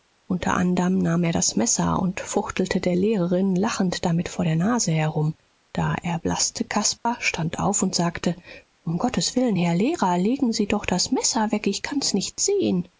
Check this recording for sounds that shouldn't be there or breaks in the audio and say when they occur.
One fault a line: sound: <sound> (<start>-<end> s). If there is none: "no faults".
sound: dropout (7.0-7.1 s)